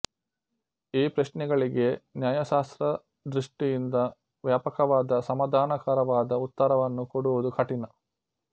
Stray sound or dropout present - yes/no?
no